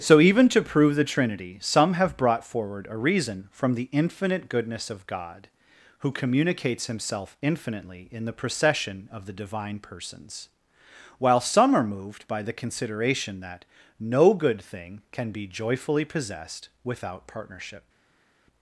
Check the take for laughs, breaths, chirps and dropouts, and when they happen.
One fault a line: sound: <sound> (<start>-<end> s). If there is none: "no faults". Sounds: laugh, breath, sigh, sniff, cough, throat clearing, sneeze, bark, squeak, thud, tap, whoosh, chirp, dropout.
no faults